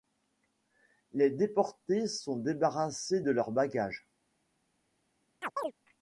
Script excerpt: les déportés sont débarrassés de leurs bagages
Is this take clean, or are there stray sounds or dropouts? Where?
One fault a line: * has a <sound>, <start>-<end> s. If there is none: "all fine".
* has a chirp, 5.4-5.7 s